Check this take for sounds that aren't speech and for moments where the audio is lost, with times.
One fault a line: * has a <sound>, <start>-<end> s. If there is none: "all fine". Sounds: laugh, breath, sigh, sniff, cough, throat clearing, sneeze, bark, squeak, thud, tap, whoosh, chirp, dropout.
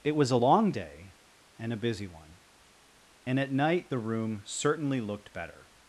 all fine